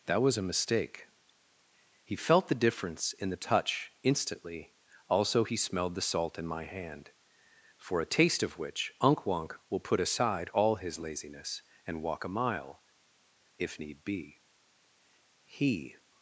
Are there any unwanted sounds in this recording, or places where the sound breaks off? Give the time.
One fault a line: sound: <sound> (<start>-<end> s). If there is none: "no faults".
no faults